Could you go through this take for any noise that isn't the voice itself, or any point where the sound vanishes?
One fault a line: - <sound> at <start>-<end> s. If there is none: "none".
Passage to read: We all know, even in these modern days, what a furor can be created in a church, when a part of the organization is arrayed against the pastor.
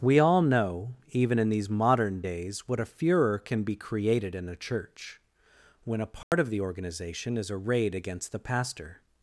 - dropout at 6.2-6.3 s